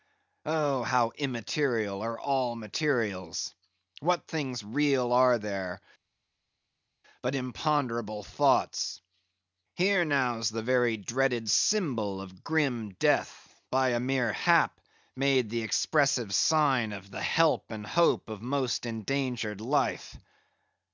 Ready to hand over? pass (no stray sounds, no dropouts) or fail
pass